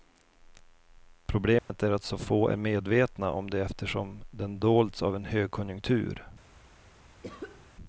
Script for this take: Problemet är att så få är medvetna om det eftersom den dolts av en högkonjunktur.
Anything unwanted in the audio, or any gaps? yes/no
yes